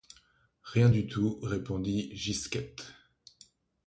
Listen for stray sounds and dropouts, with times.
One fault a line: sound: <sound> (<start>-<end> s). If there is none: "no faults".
no faults